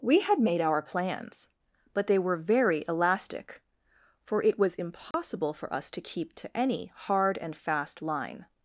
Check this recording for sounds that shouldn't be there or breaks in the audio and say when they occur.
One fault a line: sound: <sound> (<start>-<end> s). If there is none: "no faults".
sound: dropout (5.1-5.1 s)